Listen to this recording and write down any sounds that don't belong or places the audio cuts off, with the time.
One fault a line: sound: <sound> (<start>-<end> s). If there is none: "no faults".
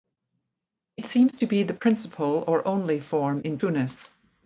no faults